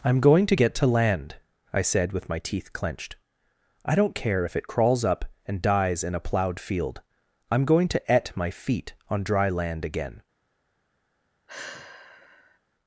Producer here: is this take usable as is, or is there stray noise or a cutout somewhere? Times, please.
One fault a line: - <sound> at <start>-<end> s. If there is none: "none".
- sigh at 11.5-12.6 s